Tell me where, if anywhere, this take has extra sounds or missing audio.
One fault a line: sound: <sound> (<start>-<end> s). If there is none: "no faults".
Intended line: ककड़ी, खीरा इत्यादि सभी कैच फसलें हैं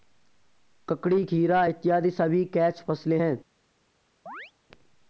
sound: chirp (4.3-4.5 s)